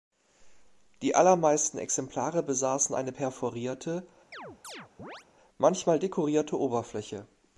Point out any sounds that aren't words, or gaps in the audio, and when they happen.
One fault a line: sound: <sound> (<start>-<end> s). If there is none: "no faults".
sound: chirp (4.3-5.2 s)